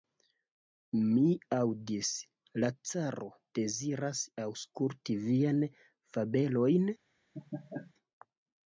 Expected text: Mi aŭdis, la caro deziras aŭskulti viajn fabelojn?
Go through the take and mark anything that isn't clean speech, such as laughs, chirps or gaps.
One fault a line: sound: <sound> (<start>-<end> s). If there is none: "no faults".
sound: laugh (7.3-7.9 s)